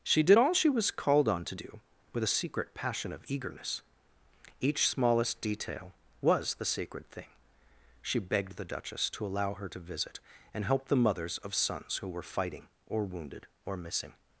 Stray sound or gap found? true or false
false